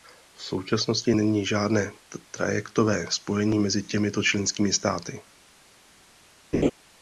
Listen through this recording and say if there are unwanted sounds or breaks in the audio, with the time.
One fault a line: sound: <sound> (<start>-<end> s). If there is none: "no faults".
sound: laugh (6.5-6.7 s)